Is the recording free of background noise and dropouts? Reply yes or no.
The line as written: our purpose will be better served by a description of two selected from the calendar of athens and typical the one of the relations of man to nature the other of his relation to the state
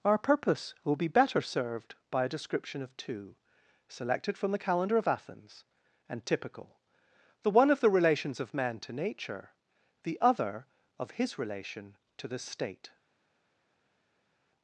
yes